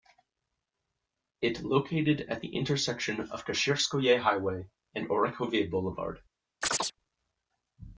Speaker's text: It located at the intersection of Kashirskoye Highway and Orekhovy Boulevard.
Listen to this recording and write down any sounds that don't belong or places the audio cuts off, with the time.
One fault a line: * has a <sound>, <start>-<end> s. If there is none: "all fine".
* has a chirp, 6.6-6.9 s